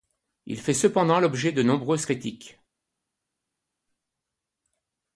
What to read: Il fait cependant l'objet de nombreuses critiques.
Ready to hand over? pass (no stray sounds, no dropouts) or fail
pass